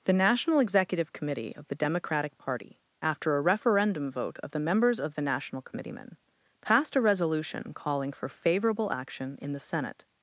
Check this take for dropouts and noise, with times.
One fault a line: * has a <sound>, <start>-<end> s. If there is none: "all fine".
all fine